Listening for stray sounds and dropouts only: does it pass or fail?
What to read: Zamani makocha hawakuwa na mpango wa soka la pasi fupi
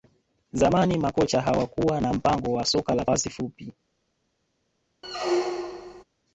fail